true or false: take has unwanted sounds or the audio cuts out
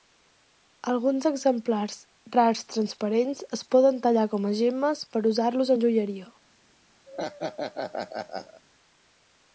true